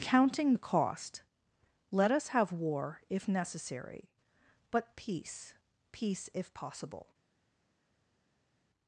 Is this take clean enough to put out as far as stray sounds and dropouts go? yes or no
yes